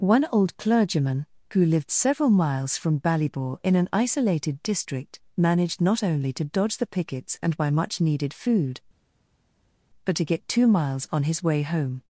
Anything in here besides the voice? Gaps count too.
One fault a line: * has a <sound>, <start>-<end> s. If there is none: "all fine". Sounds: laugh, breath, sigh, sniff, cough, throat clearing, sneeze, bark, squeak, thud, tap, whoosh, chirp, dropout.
all fine